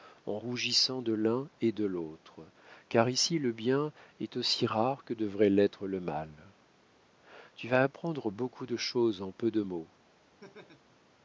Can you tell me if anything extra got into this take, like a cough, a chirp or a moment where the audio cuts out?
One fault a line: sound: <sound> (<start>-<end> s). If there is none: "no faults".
sound: laugh (10.4-11.0 s)